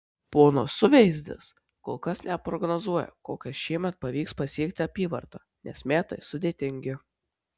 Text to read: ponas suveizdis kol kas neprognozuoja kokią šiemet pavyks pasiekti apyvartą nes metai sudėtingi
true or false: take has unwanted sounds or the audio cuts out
false